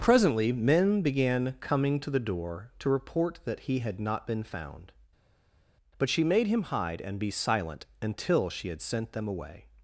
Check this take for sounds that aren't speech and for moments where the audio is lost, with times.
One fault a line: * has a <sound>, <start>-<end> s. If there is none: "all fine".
all fine